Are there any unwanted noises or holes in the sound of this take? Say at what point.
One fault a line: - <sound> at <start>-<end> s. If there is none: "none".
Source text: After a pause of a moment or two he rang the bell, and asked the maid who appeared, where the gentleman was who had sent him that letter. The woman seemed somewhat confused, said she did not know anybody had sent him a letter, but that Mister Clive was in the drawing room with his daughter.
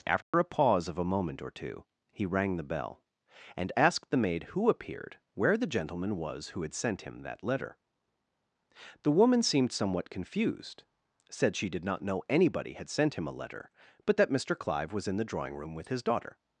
- dropout at 0.2-0.3 s